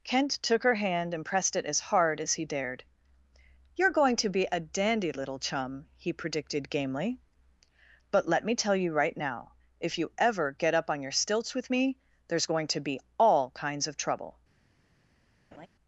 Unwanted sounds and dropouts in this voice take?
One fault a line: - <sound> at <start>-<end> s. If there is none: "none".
- laugh at 15.5-15.7 s